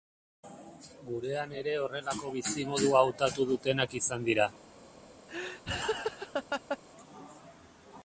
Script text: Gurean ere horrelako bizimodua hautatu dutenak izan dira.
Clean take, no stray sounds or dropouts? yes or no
no